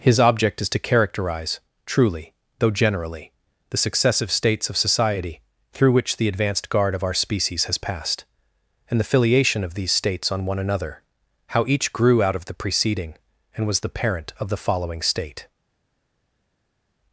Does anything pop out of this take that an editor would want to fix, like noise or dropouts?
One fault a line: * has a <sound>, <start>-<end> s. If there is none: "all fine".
all fine